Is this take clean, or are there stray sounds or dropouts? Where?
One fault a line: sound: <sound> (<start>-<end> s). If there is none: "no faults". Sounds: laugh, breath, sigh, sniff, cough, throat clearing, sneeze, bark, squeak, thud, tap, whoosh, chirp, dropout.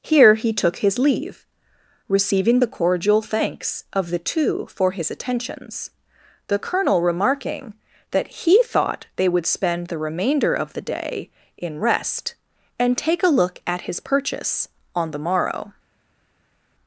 no faults